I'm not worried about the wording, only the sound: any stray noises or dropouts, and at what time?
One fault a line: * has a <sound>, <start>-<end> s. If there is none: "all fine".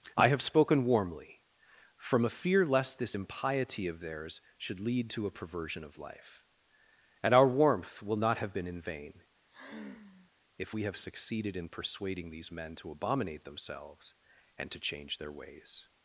* has a sigh, 9.5-10.3 s